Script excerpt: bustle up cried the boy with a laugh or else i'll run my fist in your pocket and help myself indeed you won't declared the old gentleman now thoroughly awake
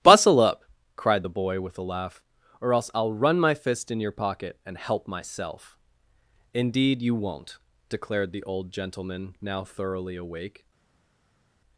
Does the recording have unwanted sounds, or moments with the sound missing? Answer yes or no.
no